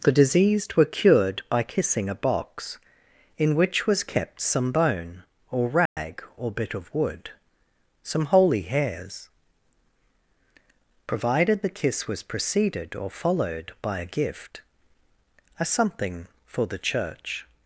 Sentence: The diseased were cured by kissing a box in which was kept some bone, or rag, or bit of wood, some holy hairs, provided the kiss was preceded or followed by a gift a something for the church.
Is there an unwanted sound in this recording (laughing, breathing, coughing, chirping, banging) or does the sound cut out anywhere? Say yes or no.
yes